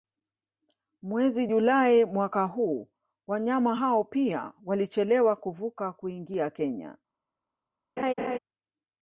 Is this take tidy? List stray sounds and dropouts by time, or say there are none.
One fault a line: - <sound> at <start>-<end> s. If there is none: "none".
- laugh at 8.0-8.4 s